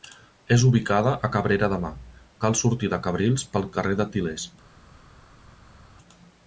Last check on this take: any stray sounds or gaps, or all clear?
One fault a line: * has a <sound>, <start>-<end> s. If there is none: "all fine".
all fine